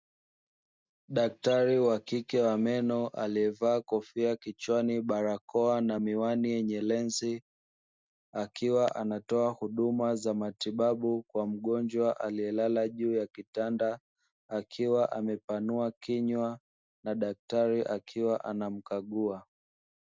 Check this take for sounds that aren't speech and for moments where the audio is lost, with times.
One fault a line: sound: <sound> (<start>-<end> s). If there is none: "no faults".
no faults